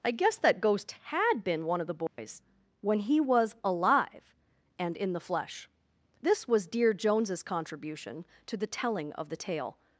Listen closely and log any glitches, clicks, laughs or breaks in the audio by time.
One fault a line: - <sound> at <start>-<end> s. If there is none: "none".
- dropout at 2.1-2.2 s